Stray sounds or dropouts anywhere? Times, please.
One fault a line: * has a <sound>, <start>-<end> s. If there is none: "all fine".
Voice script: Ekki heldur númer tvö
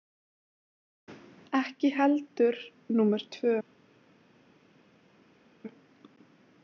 all fine